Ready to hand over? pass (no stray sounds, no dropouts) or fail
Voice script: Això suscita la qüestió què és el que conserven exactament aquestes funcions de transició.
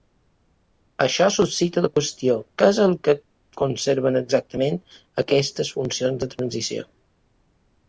pass